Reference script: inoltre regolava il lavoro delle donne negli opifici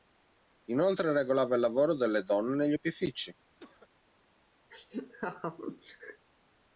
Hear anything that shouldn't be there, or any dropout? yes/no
yes